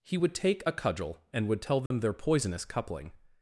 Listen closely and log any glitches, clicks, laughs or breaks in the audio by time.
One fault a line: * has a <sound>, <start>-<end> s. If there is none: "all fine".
* has a dropout, 1.9-1.9 s